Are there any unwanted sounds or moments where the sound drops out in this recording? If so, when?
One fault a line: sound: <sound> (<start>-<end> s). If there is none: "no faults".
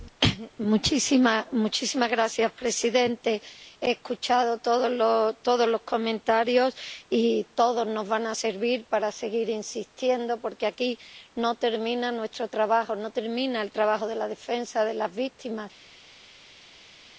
no faults